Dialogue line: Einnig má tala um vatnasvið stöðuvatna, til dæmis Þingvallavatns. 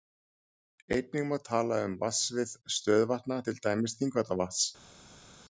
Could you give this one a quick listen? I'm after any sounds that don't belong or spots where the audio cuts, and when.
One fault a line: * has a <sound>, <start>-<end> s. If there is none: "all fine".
all fine